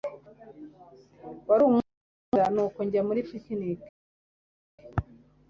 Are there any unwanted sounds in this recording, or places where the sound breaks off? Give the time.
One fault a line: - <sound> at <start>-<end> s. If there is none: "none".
none